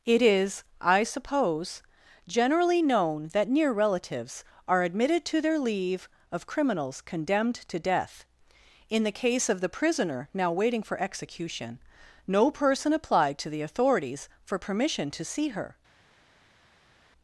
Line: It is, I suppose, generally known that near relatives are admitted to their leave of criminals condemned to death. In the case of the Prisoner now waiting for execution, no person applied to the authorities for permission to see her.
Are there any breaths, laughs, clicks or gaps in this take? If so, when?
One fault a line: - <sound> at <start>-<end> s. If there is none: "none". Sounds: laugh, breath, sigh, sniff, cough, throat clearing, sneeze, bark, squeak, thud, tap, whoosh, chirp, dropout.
none